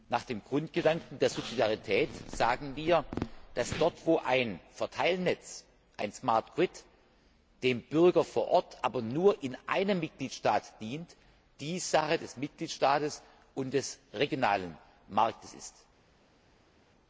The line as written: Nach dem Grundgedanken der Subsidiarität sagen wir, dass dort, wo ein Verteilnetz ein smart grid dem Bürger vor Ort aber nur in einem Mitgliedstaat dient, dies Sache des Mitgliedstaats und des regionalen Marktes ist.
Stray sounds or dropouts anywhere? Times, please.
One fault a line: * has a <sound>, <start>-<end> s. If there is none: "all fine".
all fine